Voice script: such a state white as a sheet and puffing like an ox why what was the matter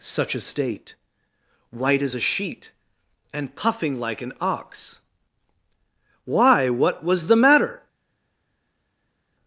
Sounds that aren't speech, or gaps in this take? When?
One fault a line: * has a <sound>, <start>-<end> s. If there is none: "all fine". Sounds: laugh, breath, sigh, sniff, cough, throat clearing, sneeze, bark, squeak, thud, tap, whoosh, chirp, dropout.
all fine